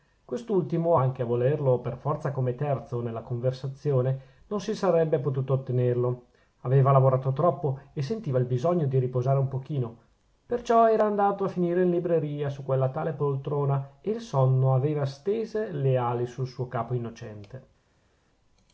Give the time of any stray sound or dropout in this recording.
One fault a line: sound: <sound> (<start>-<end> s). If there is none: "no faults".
no faults